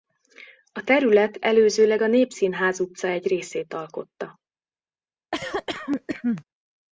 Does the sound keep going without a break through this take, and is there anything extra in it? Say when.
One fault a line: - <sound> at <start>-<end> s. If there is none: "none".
- cough at 5.3-6.4 s